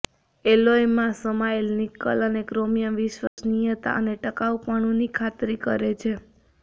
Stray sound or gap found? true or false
true